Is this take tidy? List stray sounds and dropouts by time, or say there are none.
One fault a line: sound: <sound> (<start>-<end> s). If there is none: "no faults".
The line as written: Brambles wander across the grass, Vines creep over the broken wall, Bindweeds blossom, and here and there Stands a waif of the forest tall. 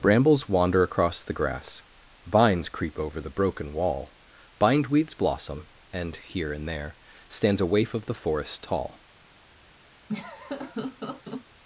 sound: laugh (10.1-11.5 s)